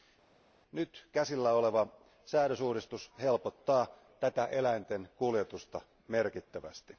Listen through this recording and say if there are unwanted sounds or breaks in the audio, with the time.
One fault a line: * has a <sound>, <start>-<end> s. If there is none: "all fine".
all fine